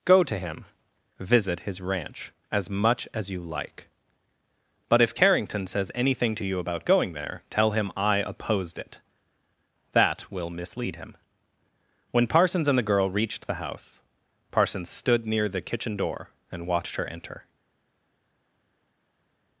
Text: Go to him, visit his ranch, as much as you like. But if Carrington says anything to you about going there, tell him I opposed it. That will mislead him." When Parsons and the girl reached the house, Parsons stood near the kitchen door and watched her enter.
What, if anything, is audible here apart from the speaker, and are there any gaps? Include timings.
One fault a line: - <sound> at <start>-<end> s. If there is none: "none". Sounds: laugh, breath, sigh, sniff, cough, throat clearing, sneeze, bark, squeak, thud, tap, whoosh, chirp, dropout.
none